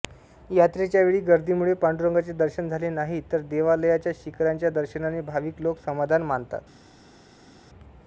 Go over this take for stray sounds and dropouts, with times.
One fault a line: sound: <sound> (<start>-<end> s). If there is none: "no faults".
no faults